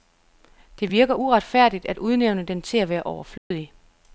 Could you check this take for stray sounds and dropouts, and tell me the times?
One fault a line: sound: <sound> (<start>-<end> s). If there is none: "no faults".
sound: dropout (3.4-3.5 s)